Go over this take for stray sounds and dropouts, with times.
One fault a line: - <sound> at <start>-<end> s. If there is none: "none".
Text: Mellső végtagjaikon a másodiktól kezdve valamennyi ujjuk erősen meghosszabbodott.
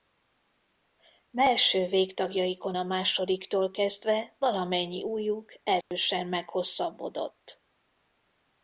- dropout at 5.8-5.9 s